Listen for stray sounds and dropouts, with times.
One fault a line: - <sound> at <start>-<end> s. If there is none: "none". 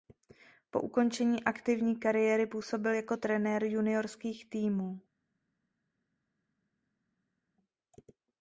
none